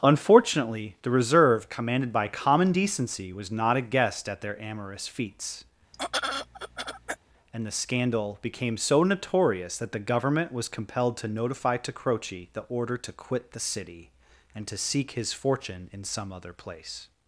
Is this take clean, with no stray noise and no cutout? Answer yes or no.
no